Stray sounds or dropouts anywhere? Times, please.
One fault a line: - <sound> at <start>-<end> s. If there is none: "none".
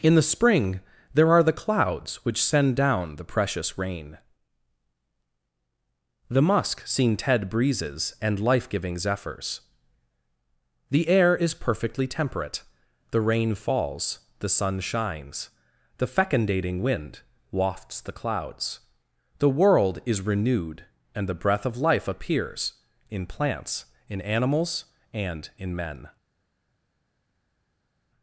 none